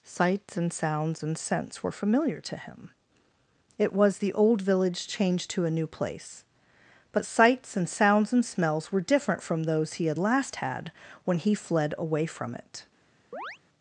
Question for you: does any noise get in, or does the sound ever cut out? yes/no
yes